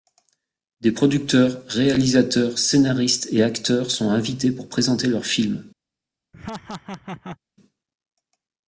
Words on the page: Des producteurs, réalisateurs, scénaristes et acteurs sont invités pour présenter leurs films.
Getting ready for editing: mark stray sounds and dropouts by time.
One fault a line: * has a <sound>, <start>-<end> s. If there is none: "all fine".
* has a laugh, 6.3-7.4 s